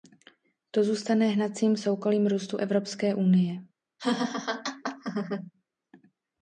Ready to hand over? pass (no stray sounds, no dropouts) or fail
fail